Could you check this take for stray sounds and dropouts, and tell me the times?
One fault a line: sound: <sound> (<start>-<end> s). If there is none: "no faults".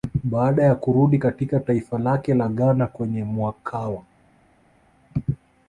no faults